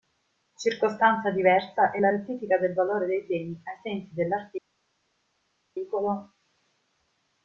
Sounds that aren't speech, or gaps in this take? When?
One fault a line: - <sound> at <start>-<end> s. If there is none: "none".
none